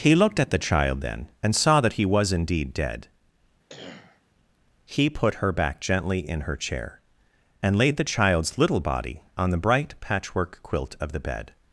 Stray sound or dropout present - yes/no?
yes